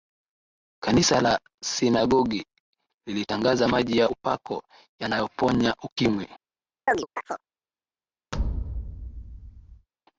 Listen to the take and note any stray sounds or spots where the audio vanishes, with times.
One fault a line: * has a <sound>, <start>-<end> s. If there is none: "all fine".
* has a chirp, 6.9-7.5 s
* has a thud, 8.3-9.9 s